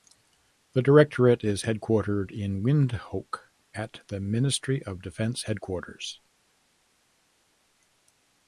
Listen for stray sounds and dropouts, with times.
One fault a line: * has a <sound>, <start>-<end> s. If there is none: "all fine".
all fine